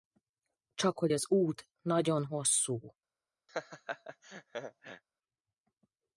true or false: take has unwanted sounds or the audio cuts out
true